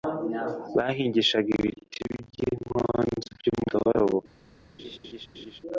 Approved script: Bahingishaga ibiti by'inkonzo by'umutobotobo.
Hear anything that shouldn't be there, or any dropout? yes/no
yes